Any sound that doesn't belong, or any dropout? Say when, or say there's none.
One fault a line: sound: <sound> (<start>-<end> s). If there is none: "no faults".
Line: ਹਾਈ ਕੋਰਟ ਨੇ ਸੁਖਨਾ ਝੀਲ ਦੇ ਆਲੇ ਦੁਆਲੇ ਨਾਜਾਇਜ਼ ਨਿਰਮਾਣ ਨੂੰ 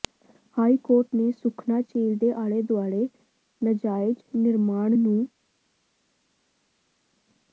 no faults